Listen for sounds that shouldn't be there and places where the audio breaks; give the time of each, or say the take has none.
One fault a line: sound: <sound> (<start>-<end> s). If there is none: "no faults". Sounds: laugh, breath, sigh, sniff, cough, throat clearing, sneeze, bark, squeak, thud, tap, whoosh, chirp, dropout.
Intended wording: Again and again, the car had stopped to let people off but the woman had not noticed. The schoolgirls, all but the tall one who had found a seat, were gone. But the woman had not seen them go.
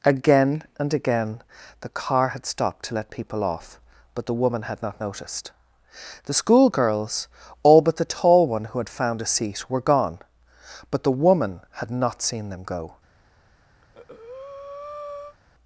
sound: breath (13.8-15.4 s)